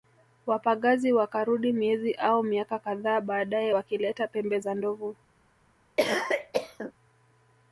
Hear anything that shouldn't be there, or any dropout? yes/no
yes